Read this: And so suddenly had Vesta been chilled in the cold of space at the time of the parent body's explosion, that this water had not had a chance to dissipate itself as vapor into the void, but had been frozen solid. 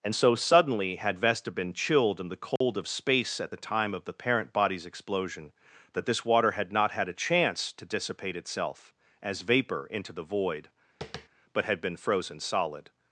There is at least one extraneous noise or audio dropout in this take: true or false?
true